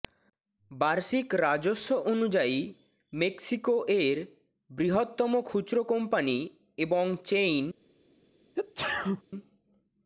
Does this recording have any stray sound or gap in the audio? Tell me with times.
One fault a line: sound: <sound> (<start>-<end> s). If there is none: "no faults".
sound: sneeze (8.6-9.2 s)